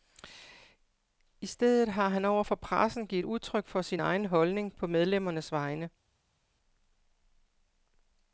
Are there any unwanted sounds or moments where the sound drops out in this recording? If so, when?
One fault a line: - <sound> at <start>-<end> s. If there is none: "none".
none